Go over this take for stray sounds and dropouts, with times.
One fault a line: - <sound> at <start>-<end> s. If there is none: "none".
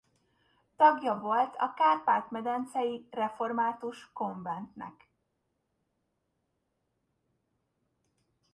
none